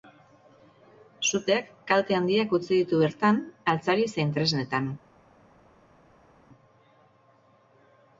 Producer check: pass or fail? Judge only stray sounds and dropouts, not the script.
pass